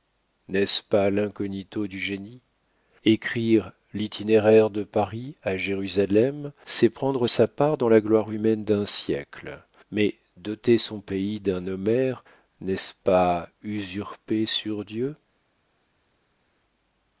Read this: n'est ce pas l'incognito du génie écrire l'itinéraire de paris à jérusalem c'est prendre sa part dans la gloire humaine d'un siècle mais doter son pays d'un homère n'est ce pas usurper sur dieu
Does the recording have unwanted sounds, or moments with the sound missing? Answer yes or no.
no